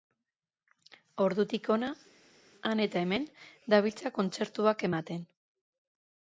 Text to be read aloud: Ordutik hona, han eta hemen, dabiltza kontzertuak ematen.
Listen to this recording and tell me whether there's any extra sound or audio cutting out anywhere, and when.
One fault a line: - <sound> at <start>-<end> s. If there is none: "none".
none